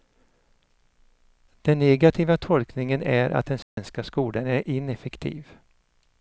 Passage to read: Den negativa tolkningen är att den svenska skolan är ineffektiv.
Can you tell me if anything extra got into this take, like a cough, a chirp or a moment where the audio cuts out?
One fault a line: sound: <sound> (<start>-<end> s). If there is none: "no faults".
sound: dropout (3.6-3.8 s)